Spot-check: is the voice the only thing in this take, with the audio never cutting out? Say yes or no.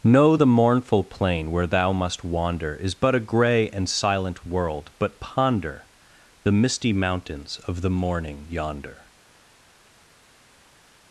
yes